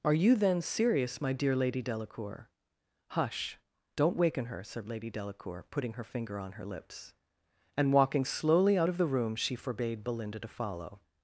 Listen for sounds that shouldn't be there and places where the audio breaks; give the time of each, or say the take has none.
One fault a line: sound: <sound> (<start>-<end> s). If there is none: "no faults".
no faults